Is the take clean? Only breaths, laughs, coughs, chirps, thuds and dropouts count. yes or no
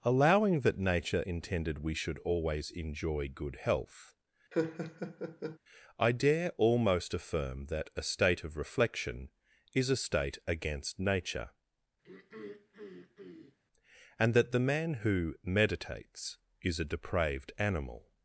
no